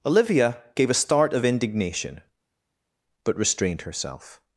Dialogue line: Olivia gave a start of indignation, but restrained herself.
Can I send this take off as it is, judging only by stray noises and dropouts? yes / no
yes